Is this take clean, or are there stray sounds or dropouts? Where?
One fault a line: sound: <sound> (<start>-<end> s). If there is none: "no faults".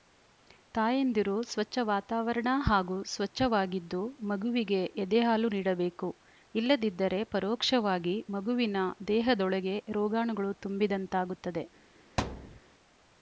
sound: thud (12.2-12.6 s)